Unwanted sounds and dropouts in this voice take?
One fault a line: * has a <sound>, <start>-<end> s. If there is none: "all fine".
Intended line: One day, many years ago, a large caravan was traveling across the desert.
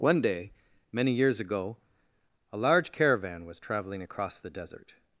all fine